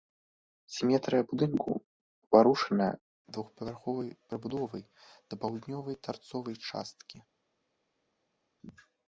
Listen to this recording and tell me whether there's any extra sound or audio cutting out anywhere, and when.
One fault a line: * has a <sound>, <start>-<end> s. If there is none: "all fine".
all fine